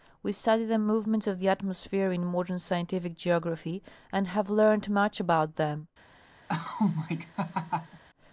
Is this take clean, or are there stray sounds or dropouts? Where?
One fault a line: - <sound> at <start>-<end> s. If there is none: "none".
- laugh at 6.5-8.0 s